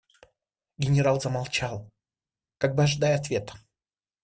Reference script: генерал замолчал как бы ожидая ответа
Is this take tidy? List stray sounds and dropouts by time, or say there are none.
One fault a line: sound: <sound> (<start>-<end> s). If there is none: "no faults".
no faults